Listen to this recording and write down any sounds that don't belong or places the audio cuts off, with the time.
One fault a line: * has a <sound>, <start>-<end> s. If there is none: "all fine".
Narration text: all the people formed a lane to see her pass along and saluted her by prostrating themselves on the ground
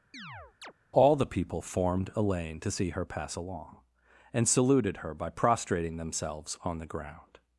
* has a chirp, 0.1-0.7 s